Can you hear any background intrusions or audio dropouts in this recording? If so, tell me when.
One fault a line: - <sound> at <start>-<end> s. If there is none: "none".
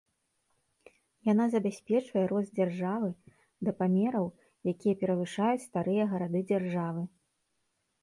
none